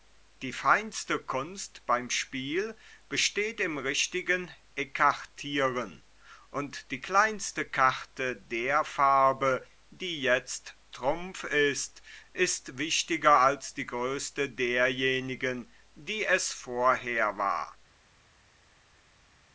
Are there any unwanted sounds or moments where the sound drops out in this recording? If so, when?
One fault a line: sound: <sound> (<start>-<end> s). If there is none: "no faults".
no faults